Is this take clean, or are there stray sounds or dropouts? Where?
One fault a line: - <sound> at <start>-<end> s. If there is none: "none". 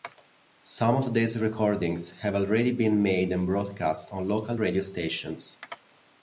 none